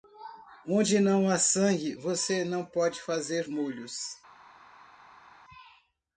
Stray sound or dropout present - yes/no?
no